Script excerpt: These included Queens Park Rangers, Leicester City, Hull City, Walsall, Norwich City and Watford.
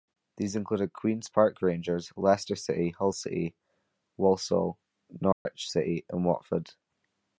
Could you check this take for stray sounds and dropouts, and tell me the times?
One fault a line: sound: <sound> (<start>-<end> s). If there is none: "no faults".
sound: dropout (5.3-5.5 s)